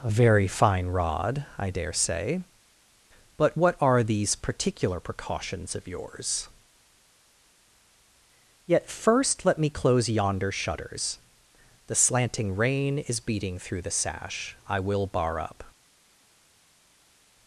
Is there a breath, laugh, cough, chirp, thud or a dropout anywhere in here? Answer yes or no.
no